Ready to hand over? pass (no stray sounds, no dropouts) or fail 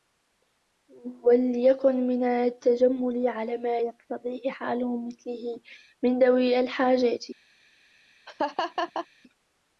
fail